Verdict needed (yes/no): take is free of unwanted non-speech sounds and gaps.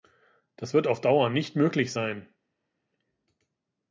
yes